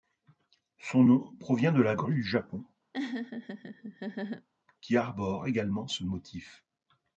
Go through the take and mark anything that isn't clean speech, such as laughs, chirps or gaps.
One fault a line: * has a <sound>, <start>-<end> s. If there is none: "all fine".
* has a laugh, 2.9-4.5 s